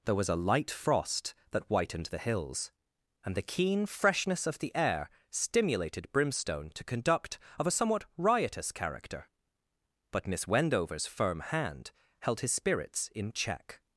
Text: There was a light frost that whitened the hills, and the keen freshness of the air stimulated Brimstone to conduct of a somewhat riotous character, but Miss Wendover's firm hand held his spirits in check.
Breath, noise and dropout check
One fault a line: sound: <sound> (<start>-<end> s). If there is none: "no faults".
no faults